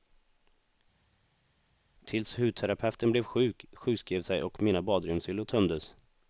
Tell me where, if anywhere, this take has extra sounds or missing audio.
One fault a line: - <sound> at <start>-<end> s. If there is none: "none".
none